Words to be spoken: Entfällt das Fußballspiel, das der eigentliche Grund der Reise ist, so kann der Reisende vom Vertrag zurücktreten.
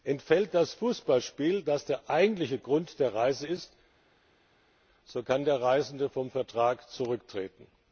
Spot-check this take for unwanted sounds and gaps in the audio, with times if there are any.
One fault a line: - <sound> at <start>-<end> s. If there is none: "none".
none